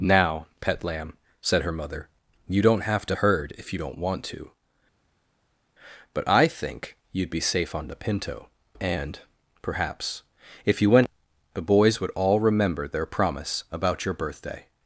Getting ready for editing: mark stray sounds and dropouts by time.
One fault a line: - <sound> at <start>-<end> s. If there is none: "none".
none